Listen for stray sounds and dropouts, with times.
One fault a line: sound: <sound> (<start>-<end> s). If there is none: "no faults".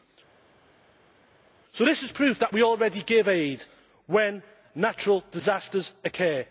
no faults